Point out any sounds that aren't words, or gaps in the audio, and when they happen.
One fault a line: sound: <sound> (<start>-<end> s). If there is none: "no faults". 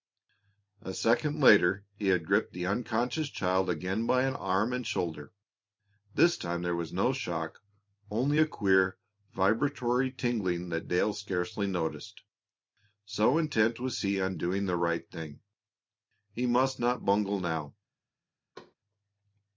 sound: thud (18.5-18.7 s)